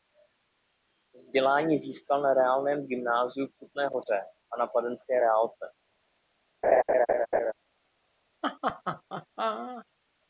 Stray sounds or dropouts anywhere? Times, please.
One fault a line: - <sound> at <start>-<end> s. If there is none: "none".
- laugh at 6.6-7.5 s
- laugh at 8.4-9.9 s